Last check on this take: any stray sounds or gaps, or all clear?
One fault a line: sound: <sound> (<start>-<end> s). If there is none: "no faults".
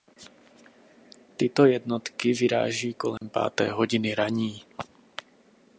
sound: dropout (3.2-3.2 s)